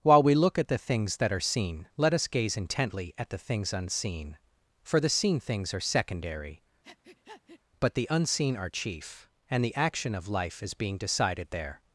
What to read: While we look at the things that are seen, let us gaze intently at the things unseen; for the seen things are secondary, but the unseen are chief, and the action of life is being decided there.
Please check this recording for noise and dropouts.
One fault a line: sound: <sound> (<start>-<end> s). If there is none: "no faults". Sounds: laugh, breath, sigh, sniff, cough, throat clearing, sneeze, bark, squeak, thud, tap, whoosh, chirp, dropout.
sound: breath (6.8-7.6 s)